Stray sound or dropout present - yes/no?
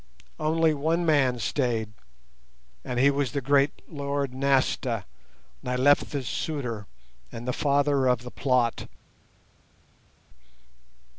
no